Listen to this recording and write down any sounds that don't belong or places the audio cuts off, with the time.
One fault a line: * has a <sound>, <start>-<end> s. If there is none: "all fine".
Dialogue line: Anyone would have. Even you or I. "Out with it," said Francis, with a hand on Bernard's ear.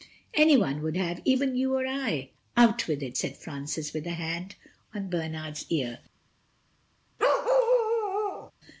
* has a bark, 7.2-8.5 s